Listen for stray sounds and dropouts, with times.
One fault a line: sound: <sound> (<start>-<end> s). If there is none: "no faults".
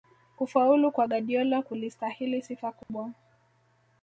sound: dropout (2.8-2.9 s)